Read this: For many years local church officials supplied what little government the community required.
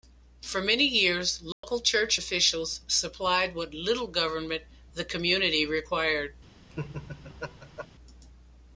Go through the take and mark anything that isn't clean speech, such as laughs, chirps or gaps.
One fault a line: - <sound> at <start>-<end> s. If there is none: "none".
- dropout at 1.5-1.6 s
- laugh at 6.7-7.9 s